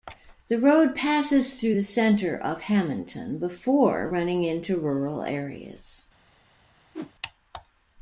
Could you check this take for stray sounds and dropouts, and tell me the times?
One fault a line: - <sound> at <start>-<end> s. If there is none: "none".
- whoosh at 6.9-7.1 s